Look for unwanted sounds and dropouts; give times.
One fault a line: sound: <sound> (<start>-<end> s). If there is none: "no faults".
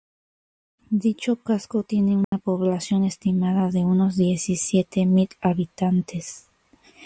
sound: dropout (2.2-2.3 s)